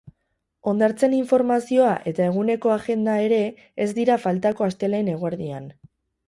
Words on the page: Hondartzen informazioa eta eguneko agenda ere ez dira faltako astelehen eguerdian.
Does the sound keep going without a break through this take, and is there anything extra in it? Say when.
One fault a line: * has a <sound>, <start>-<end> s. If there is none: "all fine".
all fine